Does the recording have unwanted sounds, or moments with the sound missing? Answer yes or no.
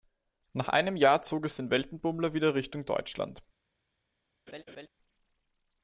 yes